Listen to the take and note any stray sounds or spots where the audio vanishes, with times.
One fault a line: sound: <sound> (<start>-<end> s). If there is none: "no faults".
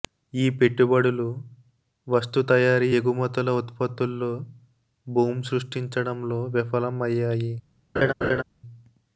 sound: laugh (8.0-8.4 s)